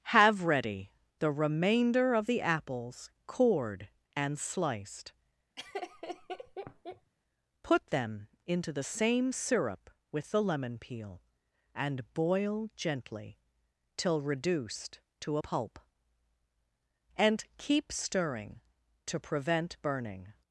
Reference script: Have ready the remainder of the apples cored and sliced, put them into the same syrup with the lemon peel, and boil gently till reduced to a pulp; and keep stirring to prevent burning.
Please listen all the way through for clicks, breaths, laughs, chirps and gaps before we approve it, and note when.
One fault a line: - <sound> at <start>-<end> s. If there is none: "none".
- laugh at 5.6-7.1 s